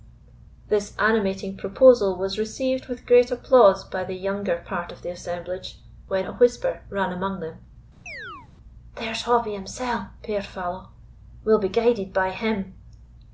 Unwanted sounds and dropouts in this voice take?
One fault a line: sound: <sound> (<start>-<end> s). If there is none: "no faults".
sound: chirp (8.1-8.5 s)